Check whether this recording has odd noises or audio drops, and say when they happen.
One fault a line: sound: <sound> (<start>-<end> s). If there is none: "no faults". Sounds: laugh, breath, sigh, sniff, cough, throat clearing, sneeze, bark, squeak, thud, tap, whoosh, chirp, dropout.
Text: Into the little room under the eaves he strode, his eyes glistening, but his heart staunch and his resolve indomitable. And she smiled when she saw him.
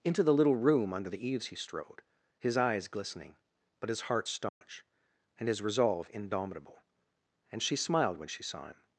sound: dropout (4.5-4.6 s)